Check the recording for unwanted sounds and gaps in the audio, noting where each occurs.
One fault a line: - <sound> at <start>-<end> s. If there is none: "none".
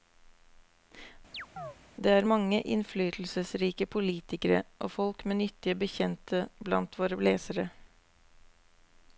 - chirp at 1.3-1.8 s